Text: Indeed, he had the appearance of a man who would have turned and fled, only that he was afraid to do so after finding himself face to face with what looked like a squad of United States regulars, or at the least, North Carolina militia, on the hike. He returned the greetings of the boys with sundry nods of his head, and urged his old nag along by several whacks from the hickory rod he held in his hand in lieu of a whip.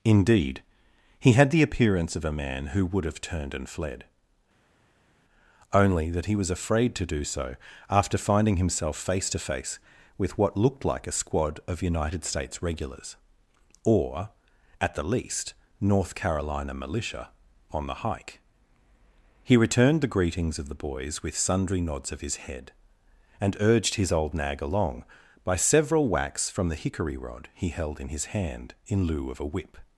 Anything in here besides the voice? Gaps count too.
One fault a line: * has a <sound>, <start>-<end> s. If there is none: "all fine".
all fine